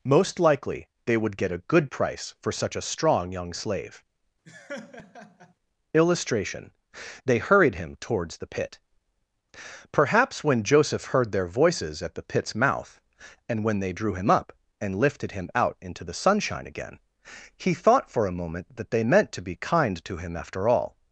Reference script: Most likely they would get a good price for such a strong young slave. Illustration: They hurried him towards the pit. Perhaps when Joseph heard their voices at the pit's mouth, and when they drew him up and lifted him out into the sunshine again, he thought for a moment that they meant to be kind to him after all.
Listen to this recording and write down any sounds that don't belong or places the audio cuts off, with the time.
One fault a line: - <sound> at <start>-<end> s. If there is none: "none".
- laugh at 4.5-5.5 s